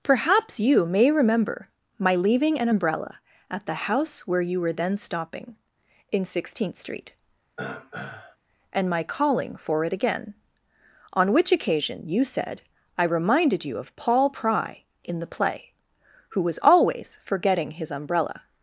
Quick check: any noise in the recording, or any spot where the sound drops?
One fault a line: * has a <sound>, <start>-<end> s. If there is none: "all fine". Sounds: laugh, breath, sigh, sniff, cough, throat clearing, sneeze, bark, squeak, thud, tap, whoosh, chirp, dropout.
* has a throat clearing, 7.6-8.4 s